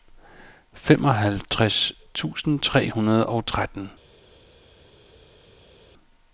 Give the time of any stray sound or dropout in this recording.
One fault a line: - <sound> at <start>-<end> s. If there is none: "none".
none